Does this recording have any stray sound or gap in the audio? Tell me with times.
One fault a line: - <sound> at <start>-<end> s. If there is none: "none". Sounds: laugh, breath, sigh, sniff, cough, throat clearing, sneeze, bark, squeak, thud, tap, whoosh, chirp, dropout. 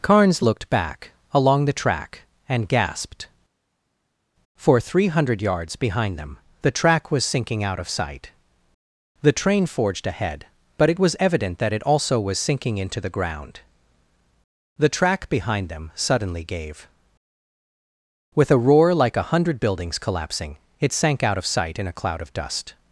none